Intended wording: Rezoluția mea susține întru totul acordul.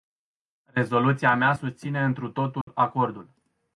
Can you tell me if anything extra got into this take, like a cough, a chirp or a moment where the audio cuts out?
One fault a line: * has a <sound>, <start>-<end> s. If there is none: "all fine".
* has a dropout, 2.6-2.7 s